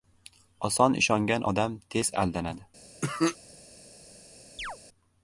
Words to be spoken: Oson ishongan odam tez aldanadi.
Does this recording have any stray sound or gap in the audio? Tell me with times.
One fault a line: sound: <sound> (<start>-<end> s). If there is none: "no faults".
sound: cough (3.0-3.4 s)
sound: chirp (4.6-4.8 s)